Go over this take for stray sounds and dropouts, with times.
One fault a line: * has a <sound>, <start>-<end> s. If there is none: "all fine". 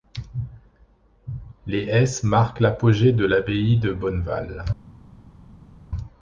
all fine